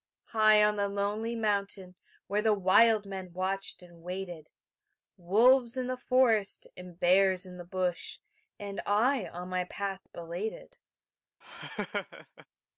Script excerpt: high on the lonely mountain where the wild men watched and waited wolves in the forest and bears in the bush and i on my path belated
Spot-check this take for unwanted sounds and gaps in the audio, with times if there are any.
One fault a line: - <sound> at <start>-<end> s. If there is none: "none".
- laugh at 11.4-12.5 s